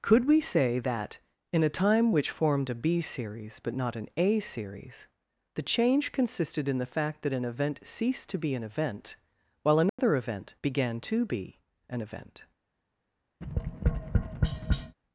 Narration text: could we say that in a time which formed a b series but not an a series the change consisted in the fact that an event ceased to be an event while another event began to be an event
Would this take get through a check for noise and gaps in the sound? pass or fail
fail